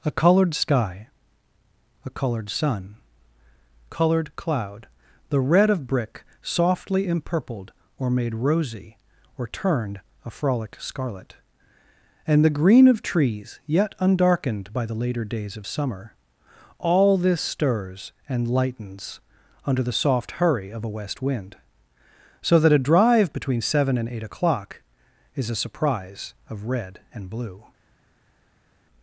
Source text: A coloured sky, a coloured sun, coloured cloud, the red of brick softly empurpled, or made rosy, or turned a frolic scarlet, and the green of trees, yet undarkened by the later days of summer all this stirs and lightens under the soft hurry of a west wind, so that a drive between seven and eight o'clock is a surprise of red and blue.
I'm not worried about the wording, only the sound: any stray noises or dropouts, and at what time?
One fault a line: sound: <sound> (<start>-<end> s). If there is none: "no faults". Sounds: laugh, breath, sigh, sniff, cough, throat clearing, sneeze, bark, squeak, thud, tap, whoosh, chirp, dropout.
no faults